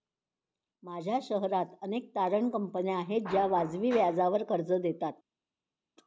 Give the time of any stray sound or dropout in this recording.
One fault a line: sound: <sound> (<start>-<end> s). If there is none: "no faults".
no faults